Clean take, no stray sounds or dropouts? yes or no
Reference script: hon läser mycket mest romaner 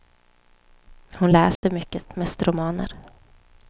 no